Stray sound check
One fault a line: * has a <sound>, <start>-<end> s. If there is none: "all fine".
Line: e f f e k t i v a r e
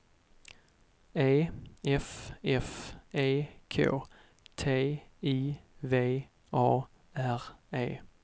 all fine